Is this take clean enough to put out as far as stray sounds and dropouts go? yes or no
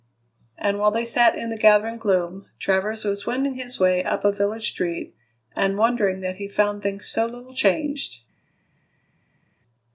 yes